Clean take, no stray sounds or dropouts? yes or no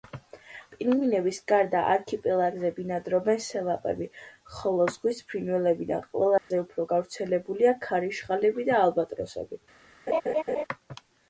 no